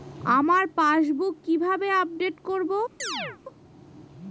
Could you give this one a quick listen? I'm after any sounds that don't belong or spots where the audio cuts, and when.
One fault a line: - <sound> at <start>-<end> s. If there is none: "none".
- chirp at 3.0-3.4 s